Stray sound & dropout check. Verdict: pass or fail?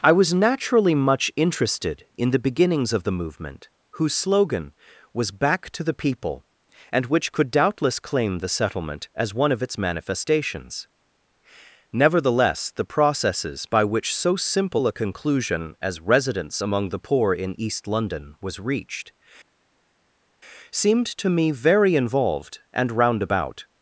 pass